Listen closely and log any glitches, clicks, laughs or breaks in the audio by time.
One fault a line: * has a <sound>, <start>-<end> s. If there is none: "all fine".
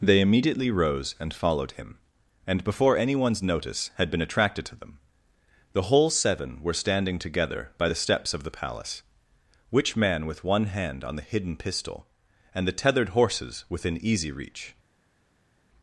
all fine